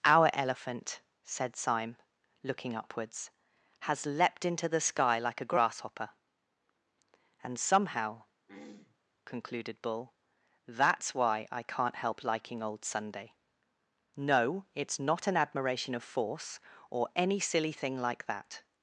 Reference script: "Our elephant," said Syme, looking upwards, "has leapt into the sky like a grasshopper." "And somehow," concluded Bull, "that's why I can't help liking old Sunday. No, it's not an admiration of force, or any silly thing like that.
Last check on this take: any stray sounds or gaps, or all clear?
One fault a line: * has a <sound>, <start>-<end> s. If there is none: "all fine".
* has a throat clearing, 8.5-9.0 s